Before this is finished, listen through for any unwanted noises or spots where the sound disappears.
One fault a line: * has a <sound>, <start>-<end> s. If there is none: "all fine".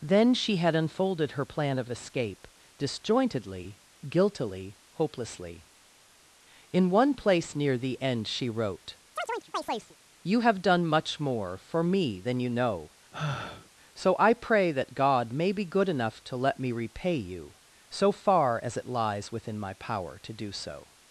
* has a chirp, 9.2-10.0 s
* has a sigh, 13.1-13.7 s